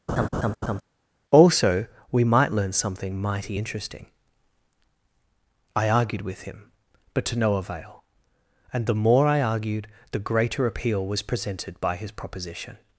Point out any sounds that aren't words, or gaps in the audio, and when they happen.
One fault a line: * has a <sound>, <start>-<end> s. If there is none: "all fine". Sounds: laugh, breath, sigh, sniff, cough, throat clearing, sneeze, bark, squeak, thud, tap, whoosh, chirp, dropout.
* has a laugh, 0.1-0.8 s